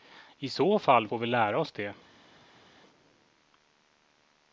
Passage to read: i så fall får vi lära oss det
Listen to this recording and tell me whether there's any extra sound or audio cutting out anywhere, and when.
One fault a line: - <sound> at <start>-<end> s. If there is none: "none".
none